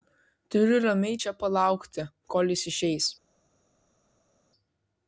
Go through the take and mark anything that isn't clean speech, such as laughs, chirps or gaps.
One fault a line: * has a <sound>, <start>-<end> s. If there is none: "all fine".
all fine